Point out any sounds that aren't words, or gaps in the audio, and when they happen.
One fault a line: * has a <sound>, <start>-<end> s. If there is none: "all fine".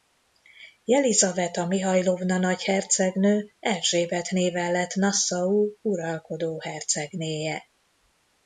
all fine